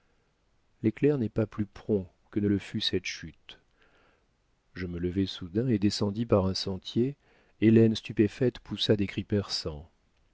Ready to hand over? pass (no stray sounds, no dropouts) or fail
pass